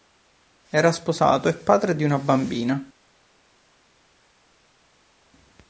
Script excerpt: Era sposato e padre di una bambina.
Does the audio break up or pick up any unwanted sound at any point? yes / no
no